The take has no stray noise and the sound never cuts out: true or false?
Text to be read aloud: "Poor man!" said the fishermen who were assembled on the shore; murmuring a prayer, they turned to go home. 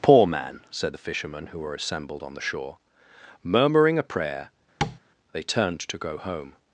false